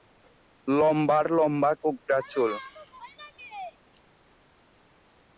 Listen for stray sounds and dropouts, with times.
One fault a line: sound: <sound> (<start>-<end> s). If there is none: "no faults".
no faults